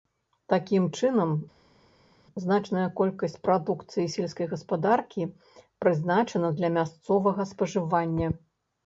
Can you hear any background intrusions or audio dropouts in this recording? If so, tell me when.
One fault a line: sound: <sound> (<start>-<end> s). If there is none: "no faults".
no faults